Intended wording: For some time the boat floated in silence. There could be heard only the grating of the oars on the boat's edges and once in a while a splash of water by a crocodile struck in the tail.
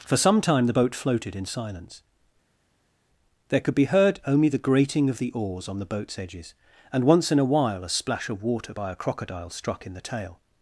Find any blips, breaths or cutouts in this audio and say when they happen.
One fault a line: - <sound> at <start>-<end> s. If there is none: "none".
none